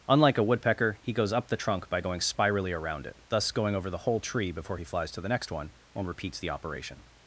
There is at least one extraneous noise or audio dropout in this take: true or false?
false